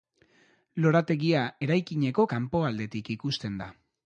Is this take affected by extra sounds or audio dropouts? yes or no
no